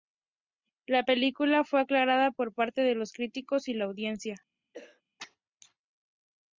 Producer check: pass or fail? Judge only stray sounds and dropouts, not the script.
fail